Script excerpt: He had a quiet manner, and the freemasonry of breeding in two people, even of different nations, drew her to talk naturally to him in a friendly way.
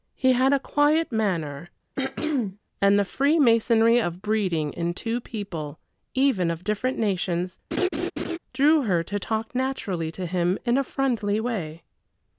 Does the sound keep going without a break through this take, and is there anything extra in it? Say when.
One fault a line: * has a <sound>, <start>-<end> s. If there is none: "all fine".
* has a throat clearing, 2.0-2.6 s
* has a laugh, 7.7-8.4 s